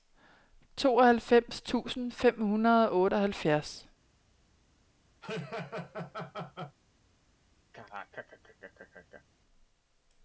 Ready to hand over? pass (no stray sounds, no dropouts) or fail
fail